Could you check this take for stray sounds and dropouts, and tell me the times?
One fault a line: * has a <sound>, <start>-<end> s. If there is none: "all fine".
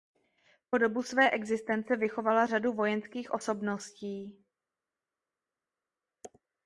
all fine